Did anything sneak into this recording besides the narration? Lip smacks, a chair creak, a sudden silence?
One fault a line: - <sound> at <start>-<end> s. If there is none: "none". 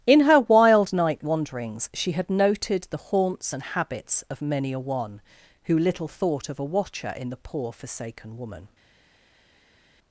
none